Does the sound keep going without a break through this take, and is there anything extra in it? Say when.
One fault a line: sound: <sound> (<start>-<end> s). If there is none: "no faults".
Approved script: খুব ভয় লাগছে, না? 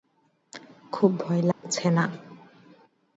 sound: dropout (1.5-1.6 s)